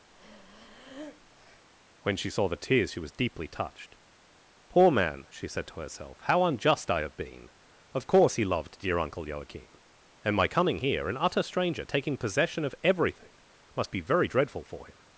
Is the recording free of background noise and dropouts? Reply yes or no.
no